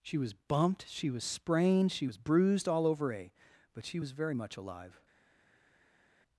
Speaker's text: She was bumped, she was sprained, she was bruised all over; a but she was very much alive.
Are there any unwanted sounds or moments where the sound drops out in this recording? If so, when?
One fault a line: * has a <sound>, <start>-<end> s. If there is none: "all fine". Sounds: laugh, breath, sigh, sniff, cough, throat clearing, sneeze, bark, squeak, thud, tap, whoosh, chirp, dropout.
all fine